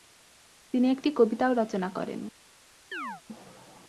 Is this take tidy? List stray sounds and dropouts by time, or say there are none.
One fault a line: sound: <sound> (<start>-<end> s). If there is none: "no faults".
sound: chirp (2.9-3.2 s)